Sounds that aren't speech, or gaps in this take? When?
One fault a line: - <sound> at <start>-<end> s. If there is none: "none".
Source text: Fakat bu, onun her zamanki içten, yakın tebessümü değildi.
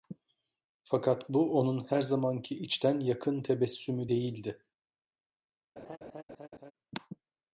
- laugh at 5.8-6.7 s